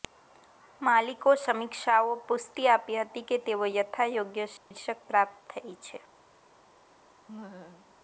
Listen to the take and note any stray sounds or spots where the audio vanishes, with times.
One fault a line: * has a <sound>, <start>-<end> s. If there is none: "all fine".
* has a dropout, 4.6-4.7 s
* has a laugh, 7.3-7.9 s